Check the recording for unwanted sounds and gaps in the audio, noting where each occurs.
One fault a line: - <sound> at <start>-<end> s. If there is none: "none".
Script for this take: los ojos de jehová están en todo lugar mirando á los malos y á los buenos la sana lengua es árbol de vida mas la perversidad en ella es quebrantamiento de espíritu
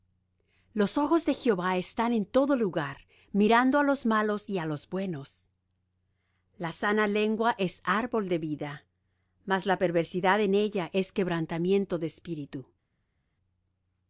none